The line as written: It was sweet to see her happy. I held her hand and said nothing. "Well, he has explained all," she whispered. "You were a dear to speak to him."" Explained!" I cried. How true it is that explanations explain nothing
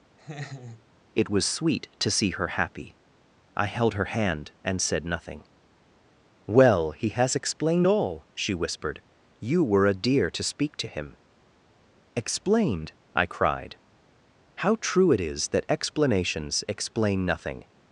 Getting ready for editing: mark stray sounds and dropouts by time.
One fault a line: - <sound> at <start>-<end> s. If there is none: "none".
- laugh at 0.2-0.9 s